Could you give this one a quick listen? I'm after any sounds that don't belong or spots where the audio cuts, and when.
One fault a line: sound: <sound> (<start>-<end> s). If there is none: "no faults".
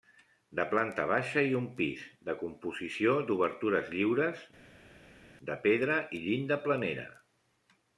no faults